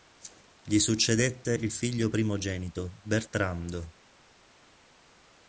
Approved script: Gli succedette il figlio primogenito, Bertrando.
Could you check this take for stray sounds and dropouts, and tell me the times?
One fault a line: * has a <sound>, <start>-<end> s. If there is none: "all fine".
all fine